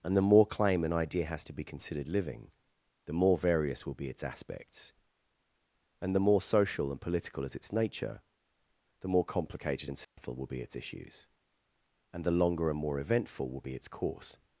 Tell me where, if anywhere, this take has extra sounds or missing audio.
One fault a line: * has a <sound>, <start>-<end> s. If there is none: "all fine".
* has a dropout, 10.0-10.2 s